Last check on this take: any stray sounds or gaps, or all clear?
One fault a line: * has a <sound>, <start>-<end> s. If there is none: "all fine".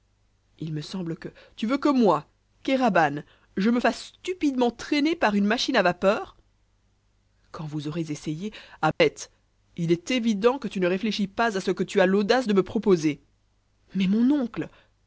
* has a dropout, 8.9-9.0 s